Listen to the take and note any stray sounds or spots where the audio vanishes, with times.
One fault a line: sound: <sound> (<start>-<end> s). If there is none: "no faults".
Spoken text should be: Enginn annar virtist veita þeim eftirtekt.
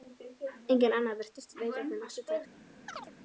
sound: chirp (2.9-3.1 s)